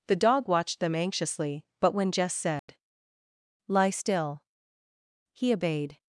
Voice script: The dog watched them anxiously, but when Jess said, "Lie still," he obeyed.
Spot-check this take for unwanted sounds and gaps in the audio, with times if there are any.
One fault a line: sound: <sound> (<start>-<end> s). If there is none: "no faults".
sound: dropout (2.6-2.7 s)